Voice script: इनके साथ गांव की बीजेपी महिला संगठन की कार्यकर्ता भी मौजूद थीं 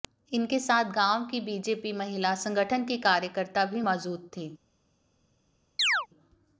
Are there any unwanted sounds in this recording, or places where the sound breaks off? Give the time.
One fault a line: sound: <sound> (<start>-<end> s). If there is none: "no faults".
sound: chirp (5.8-6.1 s)